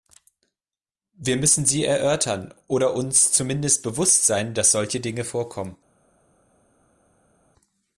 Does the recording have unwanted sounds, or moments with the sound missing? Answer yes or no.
no